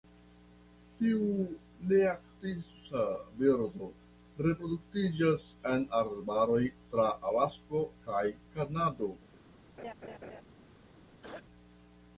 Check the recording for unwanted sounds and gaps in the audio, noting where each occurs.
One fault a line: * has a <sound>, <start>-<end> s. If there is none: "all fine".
* has a laugh, 9.8-10.4 s
* has a throat clearing, 11.2-11.4 s